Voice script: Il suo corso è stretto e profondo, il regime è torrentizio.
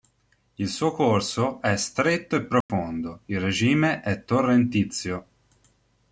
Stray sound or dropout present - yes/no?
yes